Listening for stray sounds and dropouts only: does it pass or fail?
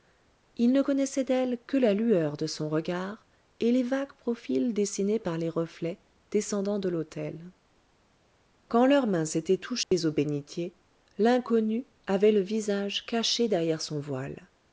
fail